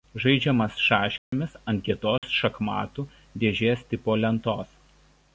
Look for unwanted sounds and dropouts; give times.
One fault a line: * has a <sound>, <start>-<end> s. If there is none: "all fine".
* has a dropout, 1.2-1.3 s
* has a dropout, 2.2-2.2 s